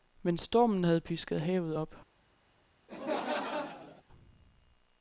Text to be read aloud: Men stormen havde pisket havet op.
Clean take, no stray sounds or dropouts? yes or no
no